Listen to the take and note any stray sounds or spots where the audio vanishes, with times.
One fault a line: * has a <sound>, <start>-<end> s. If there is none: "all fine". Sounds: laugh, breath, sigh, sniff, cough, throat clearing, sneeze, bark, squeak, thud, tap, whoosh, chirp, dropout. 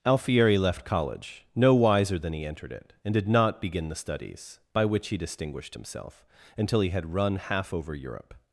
all fine